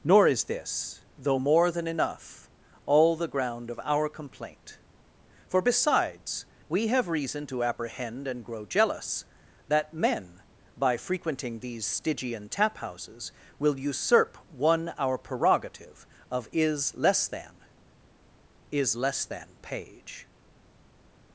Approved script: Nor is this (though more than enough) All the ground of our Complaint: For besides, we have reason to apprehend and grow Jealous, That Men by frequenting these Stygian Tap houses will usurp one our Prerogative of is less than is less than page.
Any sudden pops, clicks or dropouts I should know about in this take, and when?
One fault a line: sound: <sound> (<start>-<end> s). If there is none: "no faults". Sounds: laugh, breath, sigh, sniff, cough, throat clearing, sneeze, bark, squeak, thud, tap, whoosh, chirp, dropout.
no faults